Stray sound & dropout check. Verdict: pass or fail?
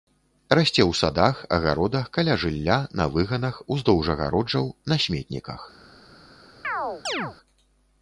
fail